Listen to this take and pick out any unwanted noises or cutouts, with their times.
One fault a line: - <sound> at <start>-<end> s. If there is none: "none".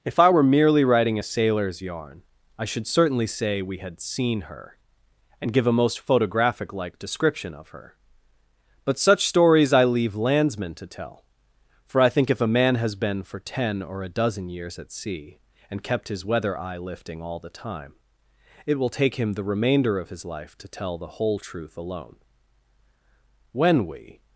none